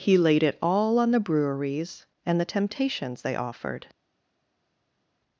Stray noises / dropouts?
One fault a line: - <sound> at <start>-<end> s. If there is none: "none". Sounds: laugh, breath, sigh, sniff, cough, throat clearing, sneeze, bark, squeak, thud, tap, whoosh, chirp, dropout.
none